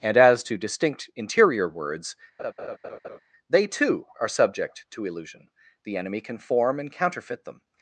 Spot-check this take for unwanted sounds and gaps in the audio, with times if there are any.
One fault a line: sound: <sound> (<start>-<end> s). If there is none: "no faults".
sound: laugh (2.4-3.2 s)